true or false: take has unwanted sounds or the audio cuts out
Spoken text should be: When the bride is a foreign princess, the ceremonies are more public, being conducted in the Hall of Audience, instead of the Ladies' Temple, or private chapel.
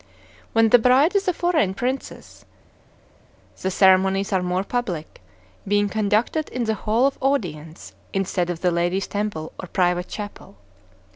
false